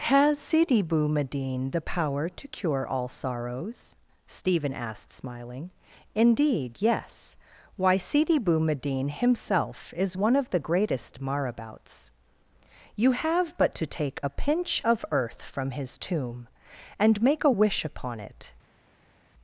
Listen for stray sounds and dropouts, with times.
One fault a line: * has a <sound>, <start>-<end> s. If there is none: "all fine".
all fine